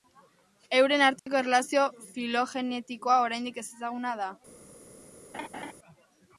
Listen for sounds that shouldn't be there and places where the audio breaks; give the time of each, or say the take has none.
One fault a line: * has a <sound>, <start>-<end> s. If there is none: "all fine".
* has a dropout, 1.2-1.3 s
* has a laugh, 5.3-5.7 s